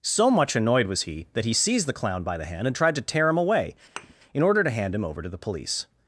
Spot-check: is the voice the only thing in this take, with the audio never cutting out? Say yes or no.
no